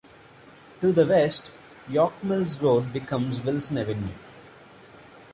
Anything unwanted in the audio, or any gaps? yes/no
no